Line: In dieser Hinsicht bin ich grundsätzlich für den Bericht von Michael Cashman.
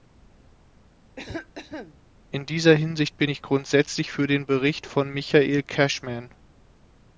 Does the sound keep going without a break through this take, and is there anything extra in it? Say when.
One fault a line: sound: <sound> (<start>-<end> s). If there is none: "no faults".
sound: cough (1.2-2.0 s)